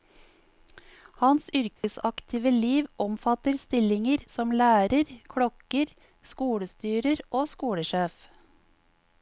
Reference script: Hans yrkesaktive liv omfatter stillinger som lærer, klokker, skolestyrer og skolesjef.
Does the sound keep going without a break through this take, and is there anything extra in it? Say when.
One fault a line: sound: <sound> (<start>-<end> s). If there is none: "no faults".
sound: dropout (1.8-1.8 s)